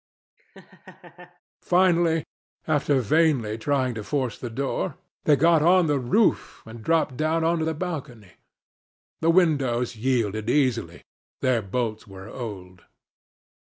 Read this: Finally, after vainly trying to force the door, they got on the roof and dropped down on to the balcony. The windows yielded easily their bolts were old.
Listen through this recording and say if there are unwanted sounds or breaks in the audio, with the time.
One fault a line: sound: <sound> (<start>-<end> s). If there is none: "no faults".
sound: laugh (0.4-1.4 s)